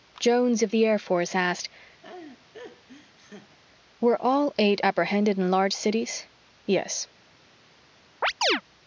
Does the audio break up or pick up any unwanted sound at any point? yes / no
yes